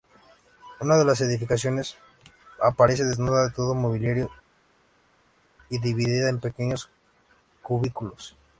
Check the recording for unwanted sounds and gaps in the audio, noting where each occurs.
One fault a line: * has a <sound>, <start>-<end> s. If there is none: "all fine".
all fine